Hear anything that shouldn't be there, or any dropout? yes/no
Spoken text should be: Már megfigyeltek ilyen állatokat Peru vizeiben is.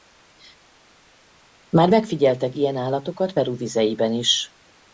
no